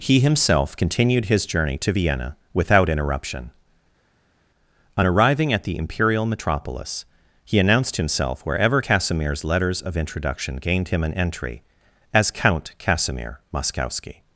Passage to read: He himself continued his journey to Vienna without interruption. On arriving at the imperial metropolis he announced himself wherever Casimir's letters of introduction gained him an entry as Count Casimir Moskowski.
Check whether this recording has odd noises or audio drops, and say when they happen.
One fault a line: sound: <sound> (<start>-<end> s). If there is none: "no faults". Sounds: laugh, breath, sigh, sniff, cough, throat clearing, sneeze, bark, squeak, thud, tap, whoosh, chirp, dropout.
no faults